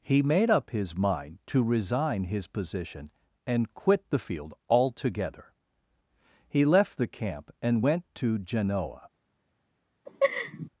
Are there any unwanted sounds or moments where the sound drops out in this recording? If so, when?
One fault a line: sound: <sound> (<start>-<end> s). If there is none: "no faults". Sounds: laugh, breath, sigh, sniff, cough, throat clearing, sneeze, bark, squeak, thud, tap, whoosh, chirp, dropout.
sound: laugh (10.1-10.7 s)